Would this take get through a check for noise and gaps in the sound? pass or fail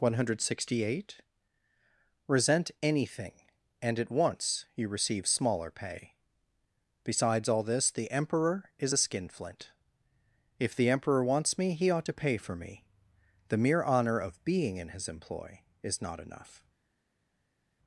pass